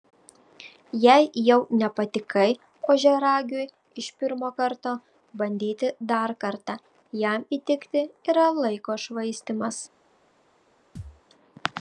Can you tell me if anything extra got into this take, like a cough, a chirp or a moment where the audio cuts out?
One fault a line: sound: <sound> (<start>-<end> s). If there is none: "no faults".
sound: thud (11.0-11.2 s)